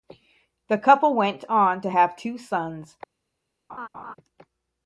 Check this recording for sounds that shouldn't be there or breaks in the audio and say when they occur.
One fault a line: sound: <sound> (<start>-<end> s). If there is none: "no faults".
sound: laugh (3.7-4.2 s)